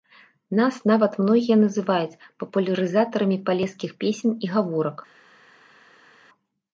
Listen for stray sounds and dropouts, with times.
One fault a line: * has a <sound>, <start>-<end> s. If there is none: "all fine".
all fine